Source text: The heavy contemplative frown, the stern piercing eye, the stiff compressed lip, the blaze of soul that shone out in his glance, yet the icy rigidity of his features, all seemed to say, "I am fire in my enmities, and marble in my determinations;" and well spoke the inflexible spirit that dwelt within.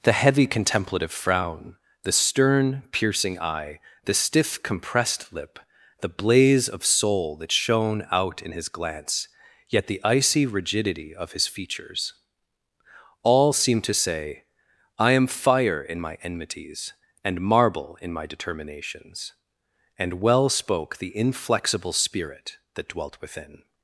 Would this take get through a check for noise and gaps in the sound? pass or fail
pass